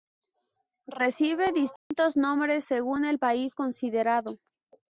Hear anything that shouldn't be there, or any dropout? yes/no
yes